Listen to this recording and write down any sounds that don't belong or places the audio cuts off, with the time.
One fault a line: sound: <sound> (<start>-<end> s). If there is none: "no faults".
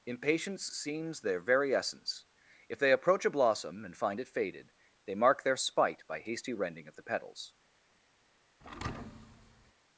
sound: thud (8.6-9.7 s)